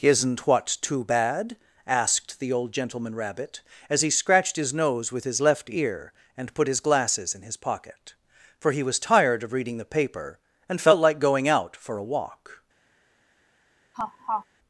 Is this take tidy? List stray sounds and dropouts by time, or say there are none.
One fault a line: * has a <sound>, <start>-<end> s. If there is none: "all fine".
* has a laugh, 13.9-14.5 s